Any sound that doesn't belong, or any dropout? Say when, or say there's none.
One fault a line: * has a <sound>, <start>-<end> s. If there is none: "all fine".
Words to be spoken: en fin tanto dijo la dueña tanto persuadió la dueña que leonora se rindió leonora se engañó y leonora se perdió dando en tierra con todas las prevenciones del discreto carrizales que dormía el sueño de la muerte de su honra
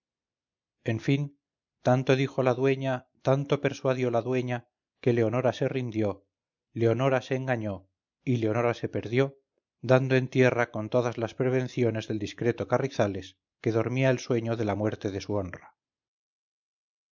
all fine